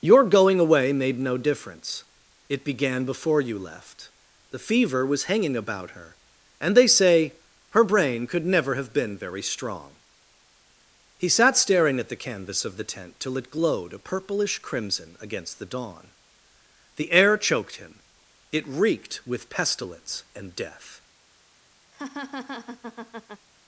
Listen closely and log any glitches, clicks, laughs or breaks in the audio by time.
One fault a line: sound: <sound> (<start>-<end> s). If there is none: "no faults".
sound: laugh (21.9-23.5 s)